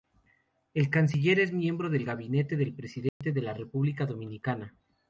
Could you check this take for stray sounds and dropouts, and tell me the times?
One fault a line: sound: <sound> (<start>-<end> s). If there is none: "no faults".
sound: dropout (3.1-3.2 s)